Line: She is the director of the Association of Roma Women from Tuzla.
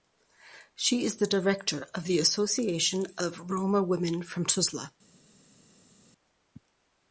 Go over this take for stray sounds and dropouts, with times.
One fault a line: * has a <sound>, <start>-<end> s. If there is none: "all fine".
all fine